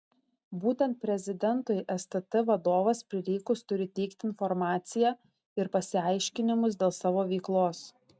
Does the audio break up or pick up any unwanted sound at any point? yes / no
no